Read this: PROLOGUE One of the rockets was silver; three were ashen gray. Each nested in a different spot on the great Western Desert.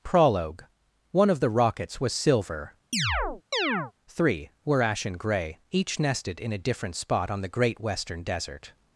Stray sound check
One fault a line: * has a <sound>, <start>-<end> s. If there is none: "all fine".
* has a chirp, 2.9-3.9 s